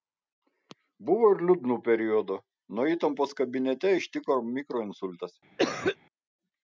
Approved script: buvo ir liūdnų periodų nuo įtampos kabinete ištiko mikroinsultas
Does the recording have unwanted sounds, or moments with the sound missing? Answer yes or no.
yes